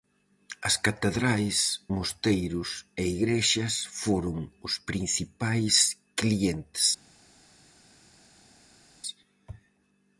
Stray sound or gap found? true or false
false